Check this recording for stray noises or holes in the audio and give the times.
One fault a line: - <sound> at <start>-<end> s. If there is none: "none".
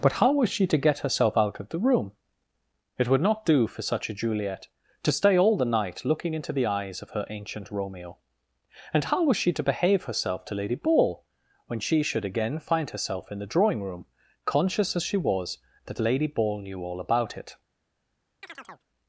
- chirp at 18.4-18.9 s